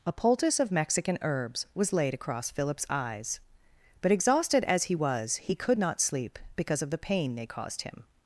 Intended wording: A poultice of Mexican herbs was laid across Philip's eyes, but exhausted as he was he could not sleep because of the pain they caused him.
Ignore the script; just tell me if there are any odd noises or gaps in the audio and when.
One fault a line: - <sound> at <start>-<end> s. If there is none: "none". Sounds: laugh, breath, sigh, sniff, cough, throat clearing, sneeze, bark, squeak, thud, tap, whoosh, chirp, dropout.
none